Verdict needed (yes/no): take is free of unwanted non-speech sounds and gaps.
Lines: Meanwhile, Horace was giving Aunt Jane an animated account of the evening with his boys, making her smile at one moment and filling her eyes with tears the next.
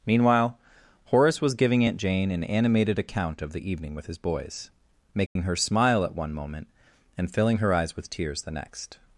no